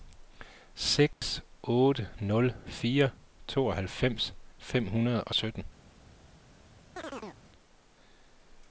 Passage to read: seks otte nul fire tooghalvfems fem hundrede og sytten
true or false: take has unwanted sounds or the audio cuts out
true